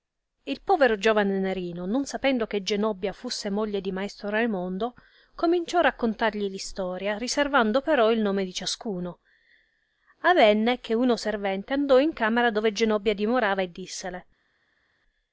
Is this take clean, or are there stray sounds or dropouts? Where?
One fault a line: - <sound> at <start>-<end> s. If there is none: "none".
none